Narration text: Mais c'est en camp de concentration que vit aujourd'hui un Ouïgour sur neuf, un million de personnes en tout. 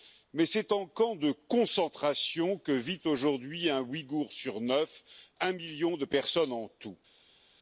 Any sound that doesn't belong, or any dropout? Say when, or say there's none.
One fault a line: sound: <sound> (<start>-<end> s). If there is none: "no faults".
no faults